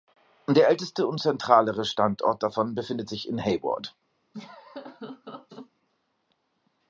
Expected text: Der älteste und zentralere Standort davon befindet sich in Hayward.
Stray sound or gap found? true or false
true